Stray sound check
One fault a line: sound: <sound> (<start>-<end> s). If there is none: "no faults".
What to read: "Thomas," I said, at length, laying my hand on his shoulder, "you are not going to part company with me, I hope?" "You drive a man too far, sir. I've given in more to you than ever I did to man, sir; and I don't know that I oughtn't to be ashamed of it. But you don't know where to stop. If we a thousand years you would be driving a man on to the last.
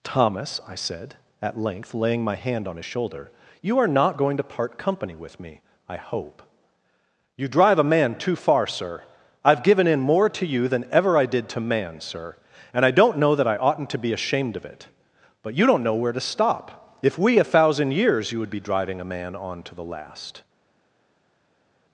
no faults